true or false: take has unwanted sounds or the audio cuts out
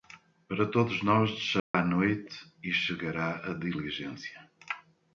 true